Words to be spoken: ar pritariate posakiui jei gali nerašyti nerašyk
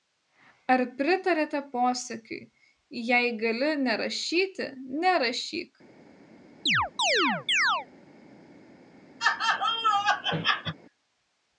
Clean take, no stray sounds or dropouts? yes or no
no